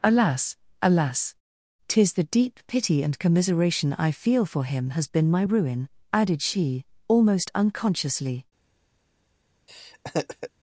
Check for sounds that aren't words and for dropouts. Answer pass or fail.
fail